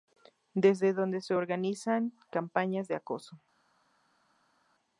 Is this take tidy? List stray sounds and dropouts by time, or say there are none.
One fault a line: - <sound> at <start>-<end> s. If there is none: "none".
none